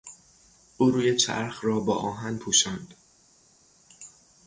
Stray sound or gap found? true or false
false